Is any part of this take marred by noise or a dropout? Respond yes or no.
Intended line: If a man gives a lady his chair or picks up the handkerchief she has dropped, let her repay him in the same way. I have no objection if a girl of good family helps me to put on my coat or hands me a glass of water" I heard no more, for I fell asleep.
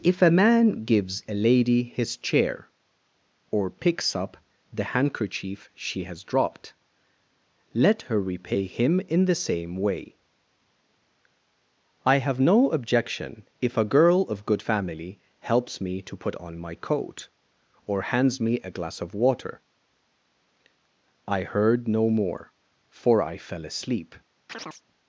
yes